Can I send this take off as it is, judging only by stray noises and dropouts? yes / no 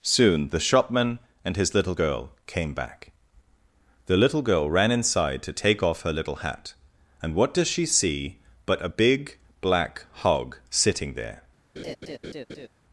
no